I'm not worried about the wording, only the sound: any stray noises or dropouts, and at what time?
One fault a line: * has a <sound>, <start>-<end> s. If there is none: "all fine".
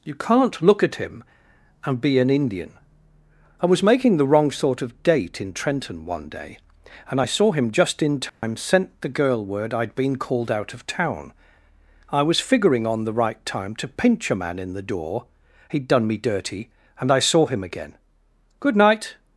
* has a dropout, 8.3-8.4 s